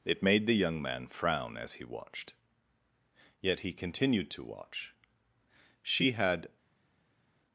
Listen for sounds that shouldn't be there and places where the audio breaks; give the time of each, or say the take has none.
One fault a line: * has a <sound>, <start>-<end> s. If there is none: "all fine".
all fine